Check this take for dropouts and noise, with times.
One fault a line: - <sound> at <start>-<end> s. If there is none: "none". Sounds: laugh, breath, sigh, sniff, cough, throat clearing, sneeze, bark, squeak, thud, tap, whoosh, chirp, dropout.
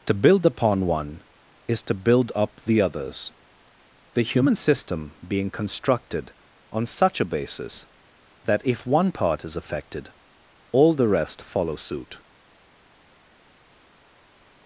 none